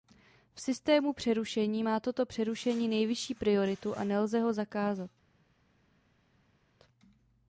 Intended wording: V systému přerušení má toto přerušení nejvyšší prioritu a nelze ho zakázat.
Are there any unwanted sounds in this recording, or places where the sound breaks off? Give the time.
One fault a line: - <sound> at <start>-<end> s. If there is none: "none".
none